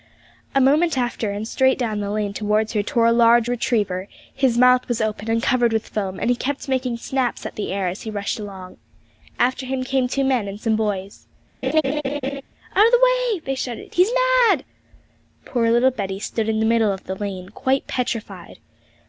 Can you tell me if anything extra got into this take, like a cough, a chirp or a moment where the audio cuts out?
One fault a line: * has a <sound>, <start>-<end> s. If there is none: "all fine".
* has a laugh, 11.6-12.4 s